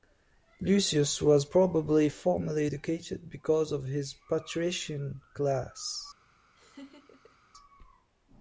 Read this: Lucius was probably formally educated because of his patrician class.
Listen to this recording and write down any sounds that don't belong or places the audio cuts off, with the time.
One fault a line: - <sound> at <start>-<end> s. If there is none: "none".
- laugh at 6.5-7.4 s